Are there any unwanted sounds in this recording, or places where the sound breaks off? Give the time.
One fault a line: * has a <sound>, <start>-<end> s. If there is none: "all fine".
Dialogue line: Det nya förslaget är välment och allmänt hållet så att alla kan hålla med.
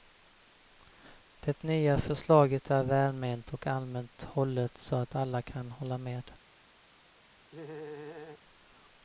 * has a laugh, 7.5-8.4 s